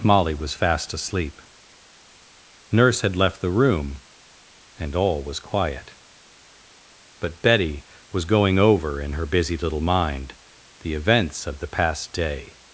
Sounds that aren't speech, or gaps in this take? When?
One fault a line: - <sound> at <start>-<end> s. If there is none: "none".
none